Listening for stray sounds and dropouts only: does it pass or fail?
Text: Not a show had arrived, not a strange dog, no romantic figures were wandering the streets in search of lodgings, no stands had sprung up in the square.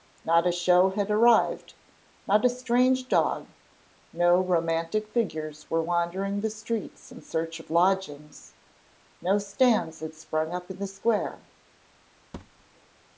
fail